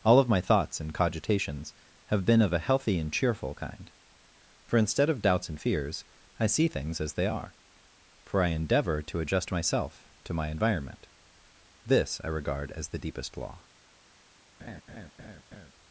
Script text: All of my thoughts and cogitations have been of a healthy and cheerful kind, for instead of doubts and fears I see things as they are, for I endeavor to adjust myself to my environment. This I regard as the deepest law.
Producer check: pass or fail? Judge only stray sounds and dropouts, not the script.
fail